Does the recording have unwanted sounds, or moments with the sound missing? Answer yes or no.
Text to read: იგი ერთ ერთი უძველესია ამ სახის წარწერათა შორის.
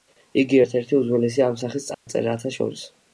yes